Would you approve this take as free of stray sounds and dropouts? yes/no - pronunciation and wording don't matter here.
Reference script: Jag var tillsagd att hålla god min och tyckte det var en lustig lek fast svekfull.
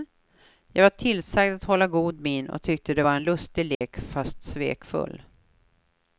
no